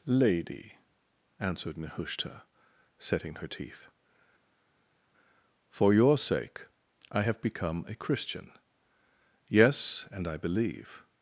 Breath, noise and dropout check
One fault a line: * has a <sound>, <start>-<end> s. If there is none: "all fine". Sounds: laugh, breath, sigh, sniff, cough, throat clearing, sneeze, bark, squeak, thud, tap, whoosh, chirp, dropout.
all fine